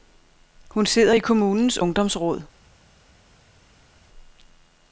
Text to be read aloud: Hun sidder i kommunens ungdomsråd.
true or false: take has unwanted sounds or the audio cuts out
false